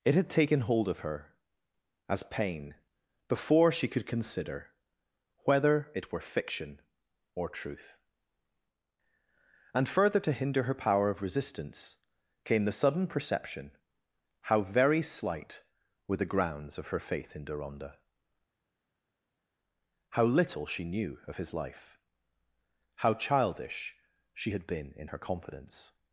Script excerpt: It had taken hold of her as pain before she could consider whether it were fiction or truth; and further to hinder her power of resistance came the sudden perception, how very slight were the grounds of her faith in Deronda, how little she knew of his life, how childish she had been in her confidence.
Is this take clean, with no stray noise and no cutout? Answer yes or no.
yes